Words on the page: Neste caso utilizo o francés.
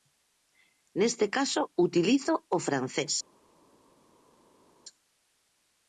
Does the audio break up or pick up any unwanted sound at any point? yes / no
no